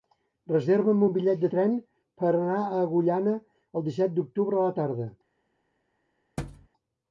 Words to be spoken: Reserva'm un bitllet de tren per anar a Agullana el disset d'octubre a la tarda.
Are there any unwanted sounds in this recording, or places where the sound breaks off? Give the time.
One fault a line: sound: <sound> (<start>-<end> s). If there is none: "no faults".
sound: thud (6.4-6.7 s)